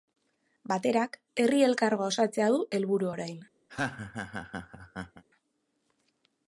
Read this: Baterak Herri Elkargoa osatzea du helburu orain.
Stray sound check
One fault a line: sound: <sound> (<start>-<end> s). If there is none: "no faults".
sound: laugh (3.7-5.2 s)